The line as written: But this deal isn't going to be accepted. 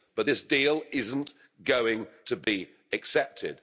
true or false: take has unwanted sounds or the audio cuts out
true